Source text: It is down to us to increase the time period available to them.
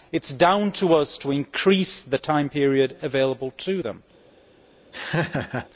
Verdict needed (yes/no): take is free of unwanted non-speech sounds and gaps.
no